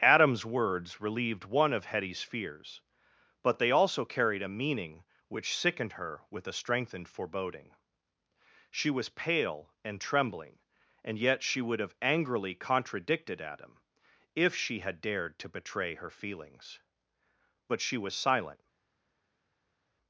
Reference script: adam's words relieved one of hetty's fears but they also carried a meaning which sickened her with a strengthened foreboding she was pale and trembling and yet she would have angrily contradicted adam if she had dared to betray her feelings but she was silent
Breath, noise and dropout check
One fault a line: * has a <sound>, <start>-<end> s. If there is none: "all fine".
all fine